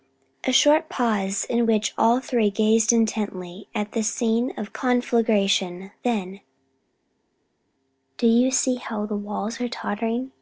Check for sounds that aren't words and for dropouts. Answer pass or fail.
pass